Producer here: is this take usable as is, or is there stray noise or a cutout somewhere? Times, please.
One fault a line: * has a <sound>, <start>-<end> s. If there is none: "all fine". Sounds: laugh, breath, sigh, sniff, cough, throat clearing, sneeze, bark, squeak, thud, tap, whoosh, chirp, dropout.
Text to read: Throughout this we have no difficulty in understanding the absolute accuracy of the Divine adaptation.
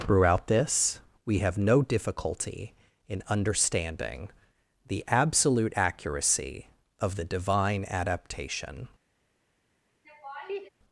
* has a laugh, 10.0-10.7 s